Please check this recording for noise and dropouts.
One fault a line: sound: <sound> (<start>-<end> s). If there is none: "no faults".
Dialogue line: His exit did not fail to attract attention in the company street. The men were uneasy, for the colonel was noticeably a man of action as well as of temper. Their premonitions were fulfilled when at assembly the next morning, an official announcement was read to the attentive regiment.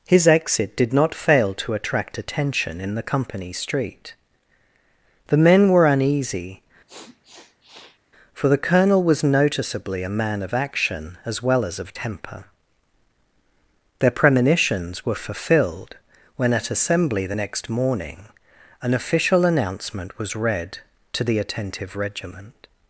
sound: sniff (6.9-8.0 s)